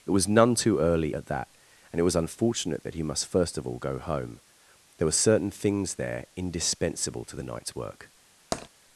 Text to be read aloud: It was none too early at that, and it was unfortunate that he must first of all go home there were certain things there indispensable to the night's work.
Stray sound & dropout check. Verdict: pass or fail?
fail